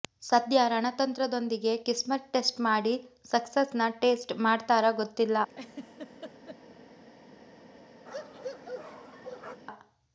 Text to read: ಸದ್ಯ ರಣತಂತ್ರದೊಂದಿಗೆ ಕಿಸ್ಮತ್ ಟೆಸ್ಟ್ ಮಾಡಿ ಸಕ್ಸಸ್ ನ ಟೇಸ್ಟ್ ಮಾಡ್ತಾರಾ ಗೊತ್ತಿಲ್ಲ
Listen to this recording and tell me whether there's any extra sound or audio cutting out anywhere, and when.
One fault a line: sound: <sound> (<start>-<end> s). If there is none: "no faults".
sound: laugh (5.5-6.6 s)
sound: bark (8.1-9.6 s)